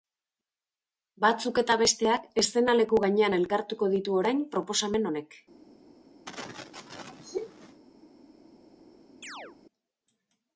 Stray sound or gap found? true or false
true